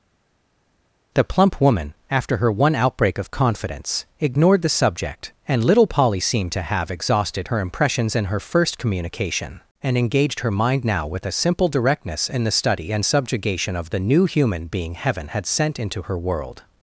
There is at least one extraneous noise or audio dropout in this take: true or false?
false